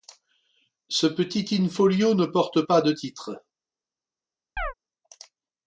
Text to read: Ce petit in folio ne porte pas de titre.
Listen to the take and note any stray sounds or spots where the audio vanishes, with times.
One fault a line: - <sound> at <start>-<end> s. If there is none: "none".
- chirp at 4.6-4.7 s